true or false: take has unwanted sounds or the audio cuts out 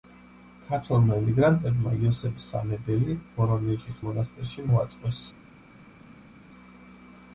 false